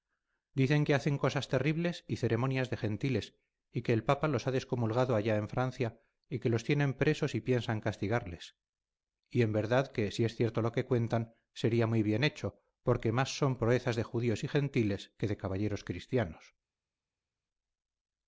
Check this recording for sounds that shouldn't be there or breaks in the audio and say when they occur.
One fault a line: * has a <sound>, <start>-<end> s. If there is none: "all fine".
all fine